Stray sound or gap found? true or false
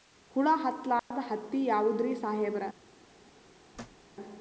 true